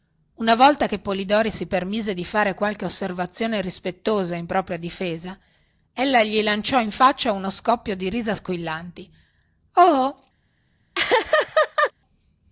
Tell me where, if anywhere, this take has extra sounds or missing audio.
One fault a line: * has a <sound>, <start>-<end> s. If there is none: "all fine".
* has a laugh, 10.9-11.9 s